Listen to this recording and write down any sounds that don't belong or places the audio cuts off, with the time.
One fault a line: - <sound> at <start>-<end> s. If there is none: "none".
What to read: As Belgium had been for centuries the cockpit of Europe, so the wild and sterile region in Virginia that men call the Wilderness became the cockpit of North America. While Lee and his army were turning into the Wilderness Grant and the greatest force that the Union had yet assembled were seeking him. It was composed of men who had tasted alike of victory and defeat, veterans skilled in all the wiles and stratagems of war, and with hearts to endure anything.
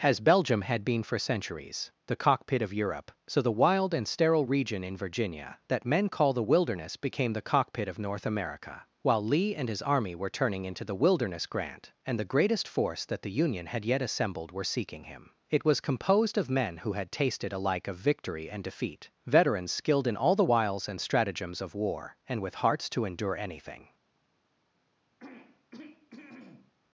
- throat clearing at 25.2-26.7 s